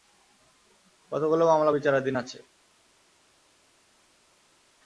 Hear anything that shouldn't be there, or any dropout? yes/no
no